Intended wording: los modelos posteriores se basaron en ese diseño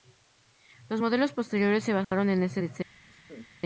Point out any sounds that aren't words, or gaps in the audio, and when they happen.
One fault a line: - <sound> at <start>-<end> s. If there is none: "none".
- dropout at 2.0-2.1 s
- laugh at 3.1-3.5 s